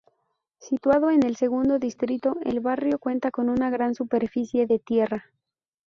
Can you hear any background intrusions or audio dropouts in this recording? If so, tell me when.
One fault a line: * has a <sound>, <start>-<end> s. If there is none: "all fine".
all fine